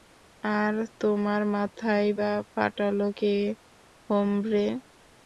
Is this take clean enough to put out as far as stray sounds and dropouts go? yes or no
yes